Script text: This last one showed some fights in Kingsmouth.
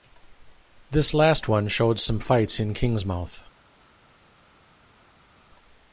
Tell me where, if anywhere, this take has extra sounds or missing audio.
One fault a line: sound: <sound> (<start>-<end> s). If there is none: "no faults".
no faults